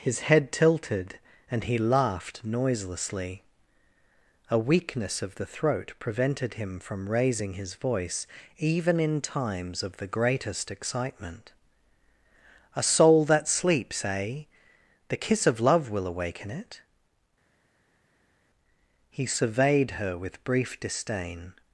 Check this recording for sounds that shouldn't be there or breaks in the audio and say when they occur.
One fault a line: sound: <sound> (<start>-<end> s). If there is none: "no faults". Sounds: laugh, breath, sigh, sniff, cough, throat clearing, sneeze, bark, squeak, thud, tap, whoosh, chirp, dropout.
no faults